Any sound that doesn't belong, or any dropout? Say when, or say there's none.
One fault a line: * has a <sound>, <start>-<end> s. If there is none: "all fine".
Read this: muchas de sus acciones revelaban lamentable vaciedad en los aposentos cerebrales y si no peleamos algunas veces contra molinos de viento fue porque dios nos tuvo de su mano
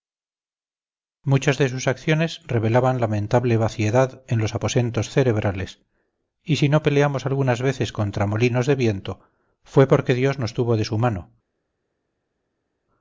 all fine